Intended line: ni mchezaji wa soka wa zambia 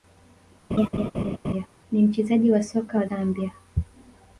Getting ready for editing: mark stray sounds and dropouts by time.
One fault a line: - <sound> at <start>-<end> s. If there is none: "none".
- laugh at 0.7-1.7 s